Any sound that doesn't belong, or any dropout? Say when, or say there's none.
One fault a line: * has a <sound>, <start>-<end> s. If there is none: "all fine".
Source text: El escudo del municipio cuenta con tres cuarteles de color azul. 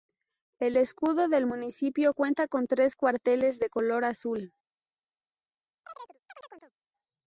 * has a chirp, 5.8-6.7 s